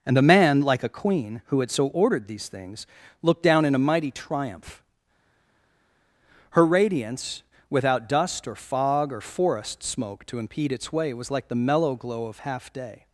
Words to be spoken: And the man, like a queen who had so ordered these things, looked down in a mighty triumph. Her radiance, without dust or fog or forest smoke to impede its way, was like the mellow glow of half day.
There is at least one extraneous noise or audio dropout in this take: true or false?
false